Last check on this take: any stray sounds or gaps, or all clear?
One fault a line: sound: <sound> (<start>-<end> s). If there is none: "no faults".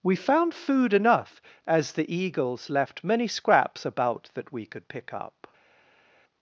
no faults